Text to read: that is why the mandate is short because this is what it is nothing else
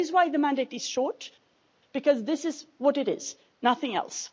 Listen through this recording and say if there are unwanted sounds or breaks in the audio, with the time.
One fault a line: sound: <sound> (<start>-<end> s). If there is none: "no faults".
no faults